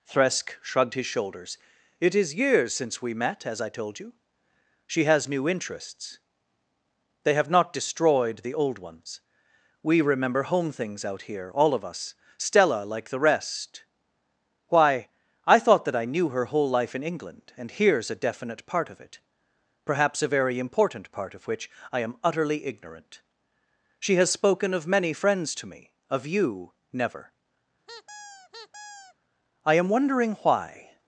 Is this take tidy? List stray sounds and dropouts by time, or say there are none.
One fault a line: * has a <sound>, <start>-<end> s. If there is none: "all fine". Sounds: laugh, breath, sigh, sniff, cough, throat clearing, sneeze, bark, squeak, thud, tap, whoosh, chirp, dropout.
* has a squeak, 27.9-29.2 s